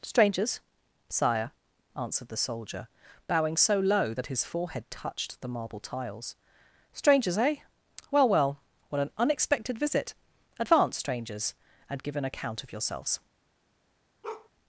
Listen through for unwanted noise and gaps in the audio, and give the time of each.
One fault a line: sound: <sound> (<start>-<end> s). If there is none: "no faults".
sound: bark (14.2-14.5 s)